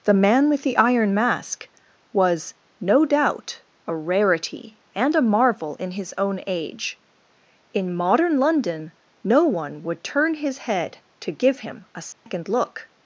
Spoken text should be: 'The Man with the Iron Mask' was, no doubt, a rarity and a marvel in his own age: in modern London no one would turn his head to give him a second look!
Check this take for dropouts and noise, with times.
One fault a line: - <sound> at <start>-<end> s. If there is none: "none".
- dropout at 12.1-12.3 s